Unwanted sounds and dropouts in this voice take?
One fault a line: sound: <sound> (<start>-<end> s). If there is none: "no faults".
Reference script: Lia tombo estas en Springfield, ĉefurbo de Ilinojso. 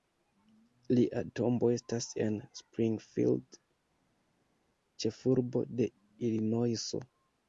no faults